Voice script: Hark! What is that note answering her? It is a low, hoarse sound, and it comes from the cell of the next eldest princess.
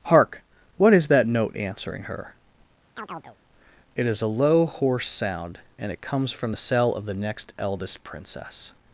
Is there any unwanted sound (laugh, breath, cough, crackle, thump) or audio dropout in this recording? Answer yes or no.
yes